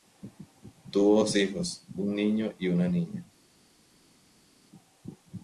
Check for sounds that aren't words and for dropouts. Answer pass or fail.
pass